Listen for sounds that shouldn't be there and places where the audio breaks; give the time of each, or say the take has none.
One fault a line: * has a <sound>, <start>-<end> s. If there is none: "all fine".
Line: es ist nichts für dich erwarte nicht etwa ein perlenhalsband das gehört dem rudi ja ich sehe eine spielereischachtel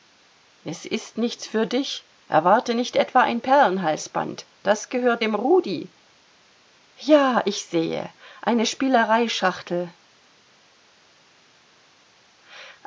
all fine